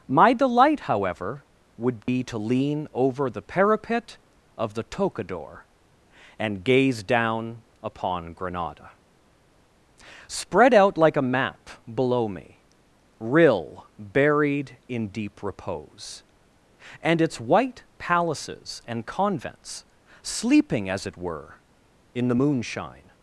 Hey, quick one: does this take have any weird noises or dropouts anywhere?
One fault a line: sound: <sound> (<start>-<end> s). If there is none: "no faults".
sound: dropout (2.0-2.1 s)